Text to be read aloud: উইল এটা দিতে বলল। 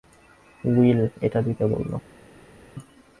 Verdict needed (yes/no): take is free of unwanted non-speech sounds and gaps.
yes